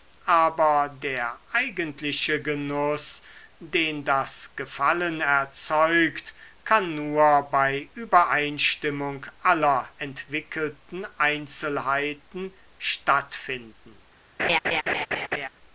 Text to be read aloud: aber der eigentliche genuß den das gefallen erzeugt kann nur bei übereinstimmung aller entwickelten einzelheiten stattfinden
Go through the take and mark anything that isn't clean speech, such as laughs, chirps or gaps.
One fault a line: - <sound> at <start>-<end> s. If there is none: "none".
- laugh at 14.4-15.5 s